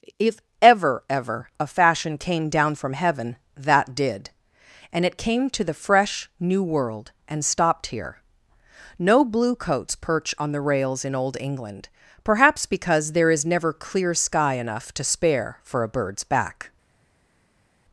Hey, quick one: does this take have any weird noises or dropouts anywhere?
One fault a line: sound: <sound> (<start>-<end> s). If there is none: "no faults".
no faults